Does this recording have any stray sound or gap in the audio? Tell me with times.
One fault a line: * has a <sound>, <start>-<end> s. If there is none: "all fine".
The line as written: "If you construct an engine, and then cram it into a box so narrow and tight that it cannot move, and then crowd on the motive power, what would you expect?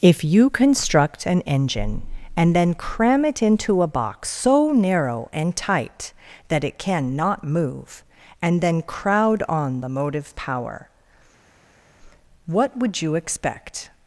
all fine